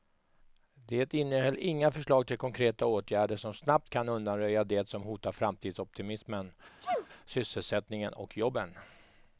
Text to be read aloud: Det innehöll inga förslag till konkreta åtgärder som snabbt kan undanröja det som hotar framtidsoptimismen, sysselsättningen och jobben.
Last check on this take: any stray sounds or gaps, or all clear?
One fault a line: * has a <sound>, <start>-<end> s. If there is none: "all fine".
* has a sneeze, 6.8-7.1 s